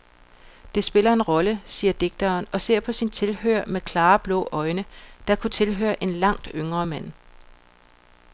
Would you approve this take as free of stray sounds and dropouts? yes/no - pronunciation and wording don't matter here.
yes